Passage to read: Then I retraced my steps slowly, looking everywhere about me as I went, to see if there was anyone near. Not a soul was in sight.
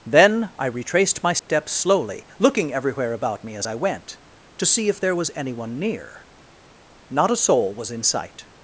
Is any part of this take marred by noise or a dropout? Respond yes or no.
yes